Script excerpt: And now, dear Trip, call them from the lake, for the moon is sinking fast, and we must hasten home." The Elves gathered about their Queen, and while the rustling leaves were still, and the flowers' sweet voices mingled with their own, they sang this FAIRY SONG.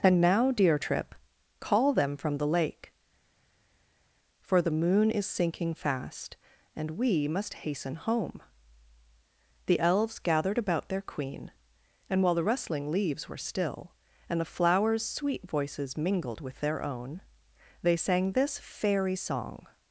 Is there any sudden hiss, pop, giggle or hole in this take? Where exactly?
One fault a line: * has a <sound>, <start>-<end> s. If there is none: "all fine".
all fine